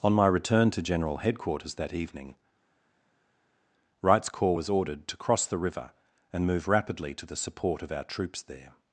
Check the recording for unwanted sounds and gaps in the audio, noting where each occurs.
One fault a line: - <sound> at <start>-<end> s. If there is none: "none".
none